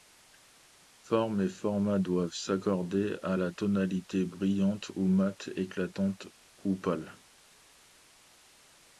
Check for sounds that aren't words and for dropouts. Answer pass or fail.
pass